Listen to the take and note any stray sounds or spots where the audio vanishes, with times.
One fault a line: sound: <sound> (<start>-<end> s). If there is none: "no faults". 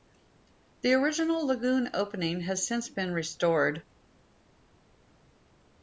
no faults